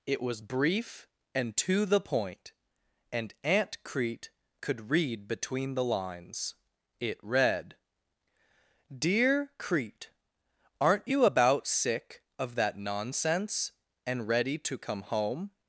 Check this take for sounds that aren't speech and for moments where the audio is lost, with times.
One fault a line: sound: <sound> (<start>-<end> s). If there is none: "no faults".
no faults